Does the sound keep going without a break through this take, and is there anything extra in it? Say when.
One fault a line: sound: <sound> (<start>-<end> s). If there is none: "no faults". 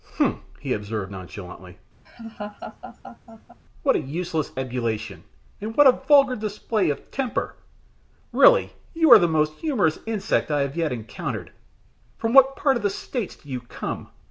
sound: laugh (2.1-3.6 s)